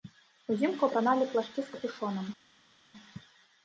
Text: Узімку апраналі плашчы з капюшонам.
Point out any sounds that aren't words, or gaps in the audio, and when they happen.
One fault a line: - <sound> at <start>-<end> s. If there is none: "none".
none